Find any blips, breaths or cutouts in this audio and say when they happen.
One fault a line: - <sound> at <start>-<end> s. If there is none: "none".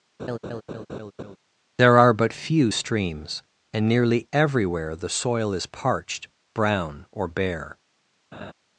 - laugh at 0.2-1.4 s
- laugh at 8.3-8.5 s